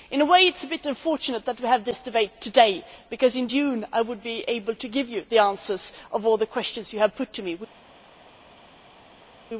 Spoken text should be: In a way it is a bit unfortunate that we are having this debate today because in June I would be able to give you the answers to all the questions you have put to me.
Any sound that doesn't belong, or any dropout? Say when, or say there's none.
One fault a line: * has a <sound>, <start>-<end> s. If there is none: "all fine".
all fine